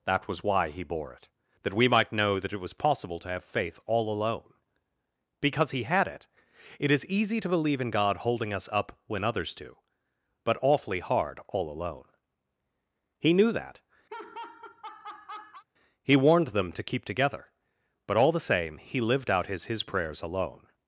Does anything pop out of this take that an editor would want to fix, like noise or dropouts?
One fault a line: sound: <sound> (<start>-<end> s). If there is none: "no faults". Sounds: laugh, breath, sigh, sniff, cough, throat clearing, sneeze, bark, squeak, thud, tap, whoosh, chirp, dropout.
sound: laugh (14.1-15.6 s)